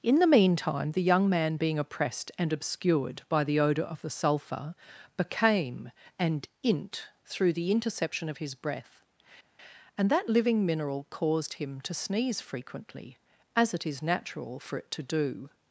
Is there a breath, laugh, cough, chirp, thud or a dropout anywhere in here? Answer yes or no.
no